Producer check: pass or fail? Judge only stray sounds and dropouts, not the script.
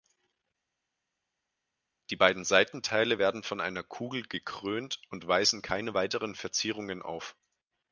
pass